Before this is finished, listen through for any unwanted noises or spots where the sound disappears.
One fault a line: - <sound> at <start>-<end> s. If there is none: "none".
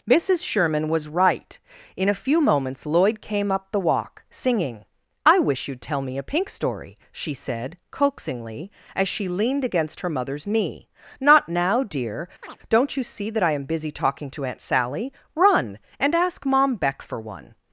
- chirp at 12.4-12.6 s